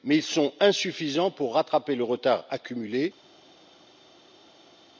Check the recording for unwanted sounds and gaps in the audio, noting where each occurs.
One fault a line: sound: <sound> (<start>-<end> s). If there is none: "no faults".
no faults